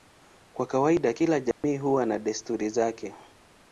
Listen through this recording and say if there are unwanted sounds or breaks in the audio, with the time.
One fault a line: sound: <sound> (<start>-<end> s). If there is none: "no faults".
sound: dropout (1.5-1.6 s)